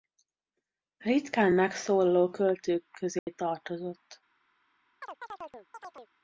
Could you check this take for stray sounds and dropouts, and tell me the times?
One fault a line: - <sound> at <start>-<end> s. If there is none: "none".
- dropout at 3.2-3.3 s
- chirp at 5.0-6.1 s